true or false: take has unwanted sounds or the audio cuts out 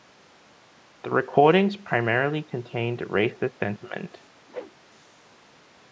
true